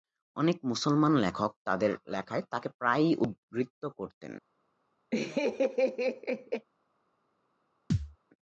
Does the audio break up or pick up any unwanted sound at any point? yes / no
yes